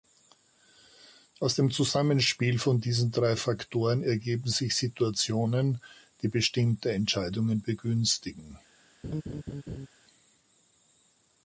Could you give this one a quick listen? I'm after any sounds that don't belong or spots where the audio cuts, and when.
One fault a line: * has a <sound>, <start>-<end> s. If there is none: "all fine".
* has a laugh, 9.0-9.9 s